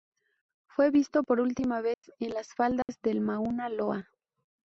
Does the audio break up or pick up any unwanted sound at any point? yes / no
yes